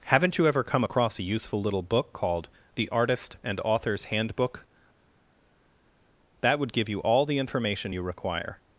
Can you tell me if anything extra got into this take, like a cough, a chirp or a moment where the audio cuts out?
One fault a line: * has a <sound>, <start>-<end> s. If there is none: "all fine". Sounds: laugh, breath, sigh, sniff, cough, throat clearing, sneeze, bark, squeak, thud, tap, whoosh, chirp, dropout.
all fine